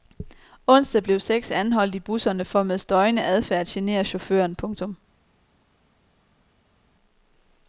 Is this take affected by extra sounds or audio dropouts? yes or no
no